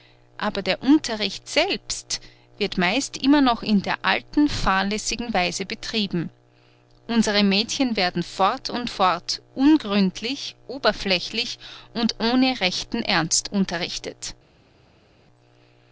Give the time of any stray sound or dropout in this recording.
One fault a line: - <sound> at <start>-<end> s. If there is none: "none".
none